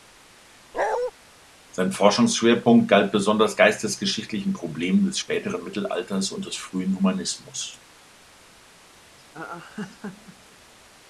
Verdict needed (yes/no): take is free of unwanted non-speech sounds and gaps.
no